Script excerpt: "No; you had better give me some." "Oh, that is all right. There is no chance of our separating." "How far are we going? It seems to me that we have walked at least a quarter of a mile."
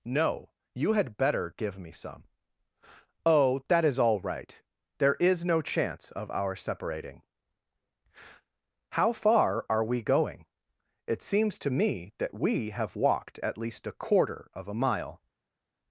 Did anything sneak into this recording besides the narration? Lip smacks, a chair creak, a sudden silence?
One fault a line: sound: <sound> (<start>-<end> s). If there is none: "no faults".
no faults